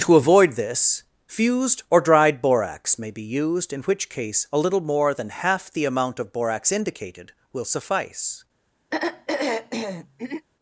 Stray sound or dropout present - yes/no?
yes